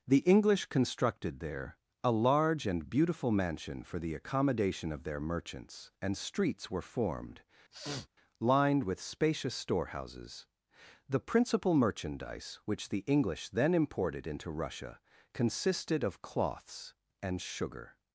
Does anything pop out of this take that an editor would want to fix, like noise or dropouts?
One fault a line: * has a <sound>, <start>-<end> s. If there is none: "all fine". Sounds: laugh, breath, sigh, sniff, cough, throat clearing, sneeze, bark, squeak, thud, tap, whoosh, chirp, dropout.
* has a sniff, 7.7-8.1 s